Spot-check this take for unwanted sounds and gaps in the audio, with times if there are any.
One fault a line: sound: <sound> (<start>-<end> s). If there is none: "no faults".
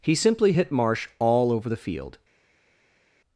no faults